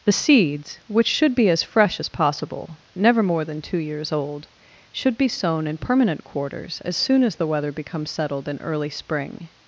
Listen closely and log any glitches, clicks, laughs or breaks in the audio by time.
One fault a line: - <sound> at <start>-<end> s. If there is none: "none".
none